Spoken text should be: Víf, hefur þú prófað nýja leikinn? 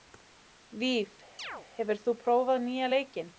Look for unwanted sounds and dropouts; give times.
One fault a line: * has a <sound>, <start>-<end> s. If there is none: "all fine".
* has a chirp, 1.4-1.7 s